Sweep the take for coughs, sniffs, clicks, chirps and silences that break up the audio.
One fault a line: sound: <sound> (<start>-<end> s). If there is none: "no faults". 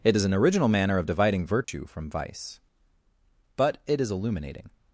sound: dropout (1.6-1.7 s)